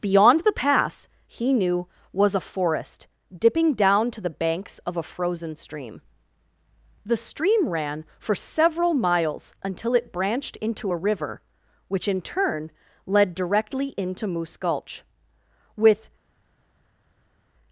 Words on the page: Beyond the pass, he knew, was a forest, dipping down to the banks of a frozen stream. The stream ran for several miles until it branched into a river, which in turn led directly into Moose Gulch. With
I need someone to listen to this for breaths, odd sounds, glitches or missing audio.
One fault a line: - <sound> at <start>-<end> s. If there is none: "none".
none